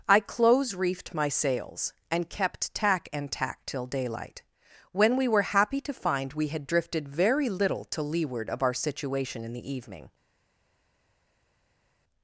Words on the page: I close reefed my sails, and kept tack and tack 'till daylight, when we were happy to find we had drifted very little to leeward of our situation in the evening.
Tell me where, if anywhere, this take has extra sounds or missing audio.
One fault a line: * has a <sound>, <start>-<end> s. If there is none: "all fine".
all fine